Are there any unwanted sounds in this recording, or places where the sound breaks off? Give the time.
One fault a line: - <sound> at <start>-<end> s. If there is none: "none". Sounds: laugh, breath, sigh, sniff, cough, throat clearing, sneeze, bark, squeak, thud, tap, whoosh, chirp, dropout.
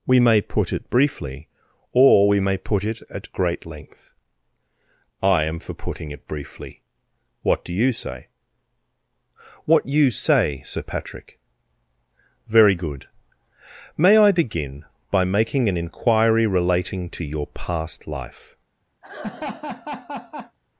- laugh at 19.0-20.6 s